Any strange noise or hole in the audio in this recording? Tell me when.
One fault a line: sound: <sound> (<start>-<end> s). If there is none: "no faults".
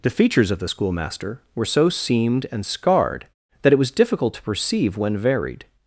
no faults